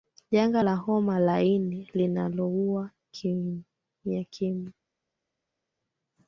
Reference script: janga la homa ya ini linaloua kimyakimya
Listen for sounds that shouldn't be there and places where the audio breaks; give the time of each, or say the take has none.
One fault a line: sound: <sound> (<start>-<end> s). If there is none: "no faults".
no faults